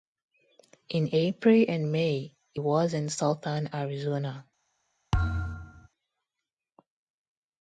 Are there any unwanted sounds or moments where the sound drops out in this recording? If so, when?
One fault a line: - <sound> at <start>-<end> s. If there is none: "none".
- thud at 5.1-5.9 s